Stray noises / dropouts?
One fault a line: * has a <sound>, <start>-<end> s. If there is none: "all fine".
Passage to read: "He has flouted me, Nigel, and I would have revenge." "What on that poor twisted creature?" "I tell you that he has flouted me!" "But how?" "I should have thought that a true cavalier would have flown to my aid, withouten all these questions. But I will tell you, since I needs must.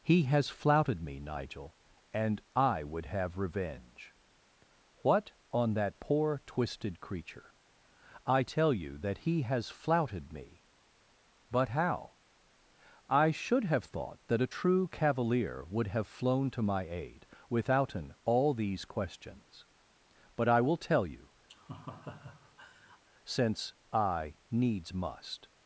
* has a laugh, 21.5-23.0 s